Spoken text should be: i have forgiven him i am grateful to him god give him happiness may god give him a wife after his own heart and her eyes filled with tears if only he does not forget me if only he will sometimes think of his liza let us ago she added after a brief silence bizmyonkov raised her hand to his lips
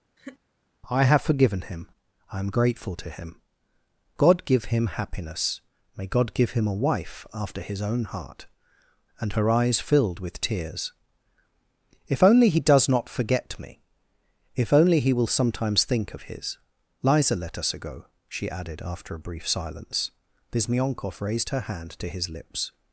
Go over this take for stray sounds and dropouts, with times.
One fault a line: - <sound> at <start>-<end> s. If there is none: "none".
- laugh at 0.2-0.4 s